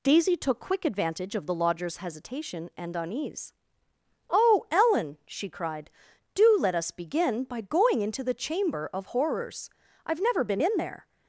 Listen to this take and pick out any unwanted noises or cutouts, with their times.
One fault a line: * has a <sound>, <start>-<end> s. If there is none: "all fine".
all fine